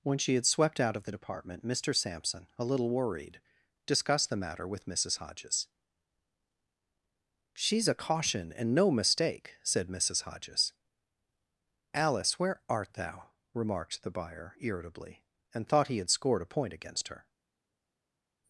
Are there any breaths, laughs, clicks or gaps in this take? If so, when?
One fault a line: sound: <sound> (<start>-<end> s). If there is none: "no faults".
no faults